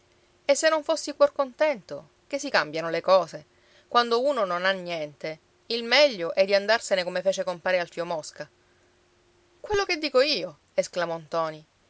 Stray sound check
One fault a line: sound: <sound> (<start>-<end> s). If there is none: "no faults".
no faults